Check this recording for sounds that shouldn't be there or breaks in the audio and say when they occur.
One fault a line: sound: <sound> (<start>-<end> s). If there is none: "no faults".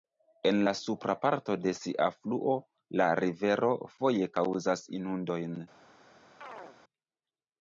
sound: chirp (6.4-6.8 s)